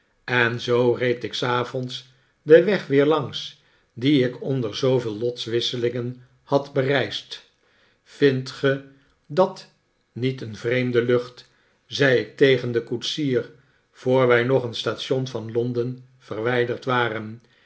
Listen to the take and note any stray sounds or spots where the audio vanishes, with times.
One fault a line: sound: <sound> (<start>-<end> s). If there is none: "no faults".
no faults